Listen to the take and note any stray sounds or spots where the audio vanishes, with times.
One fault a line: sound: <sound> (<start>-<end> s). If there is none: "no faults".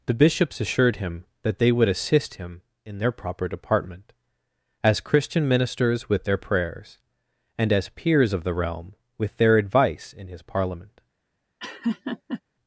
sound: laugh (11.6-12.4 s)